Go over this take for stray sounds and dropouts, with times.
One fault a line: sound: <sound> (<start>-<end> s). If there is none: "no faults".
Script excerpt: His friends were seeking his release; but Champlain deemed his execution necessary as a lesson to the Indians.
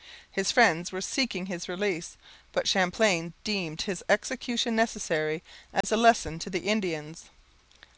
sound: dropout (5.8-5.8 s)